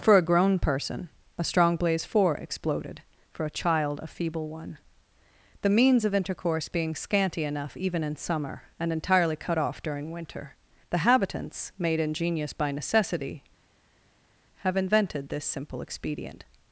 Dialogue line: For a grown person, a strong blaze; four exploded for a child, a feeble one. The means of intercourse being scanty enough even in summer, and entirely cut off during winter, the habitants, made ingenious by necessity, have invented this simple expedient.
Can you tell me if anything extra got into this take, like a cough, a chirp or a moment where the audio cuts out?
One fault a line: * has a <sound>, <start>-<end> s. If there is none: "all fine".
all fine